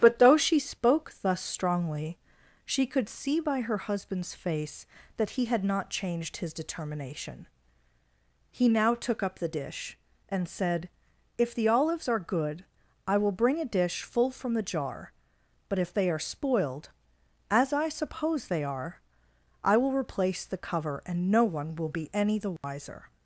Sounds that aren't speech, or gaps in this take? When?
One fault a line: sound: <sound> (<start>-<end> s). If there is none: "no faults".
sound: dropout (22.6-22.6 s)